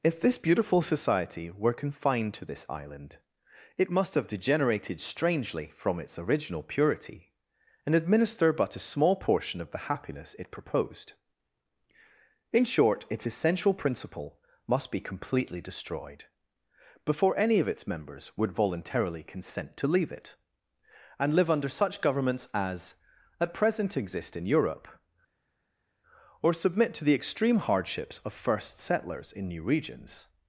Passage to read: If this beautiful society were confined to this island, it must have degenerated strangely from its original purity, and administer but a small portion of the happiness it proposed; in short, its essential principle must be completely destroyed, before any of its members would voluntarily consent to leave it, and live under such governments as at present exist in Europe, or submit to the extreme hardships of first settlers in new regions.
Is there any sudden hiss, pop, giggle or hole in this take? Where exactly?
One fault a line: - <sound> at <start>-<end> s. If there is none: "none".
none